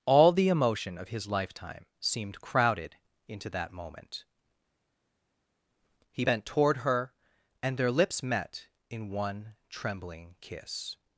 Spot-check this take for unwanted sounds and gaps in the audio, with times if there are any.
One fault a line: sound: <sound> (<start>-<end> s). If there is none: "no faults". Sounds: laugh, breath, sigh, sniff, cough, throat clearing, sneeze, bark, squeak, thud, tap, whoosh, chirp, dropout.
no faults